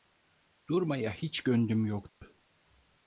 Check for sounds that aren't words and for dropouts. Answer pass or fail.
fail